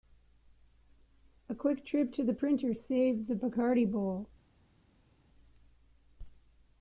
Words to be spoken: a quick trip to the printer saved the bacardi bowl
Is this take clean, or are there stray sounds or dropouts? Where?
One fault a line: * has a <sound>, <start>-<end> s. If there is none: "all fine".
all fine